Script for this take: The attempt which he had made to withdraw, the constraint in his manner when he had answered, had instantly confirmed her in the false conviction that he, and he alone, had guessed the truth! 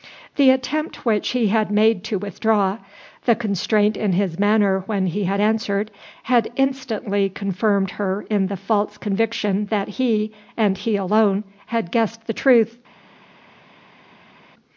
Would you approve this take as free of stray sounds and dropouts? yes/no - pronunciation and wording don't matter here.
yes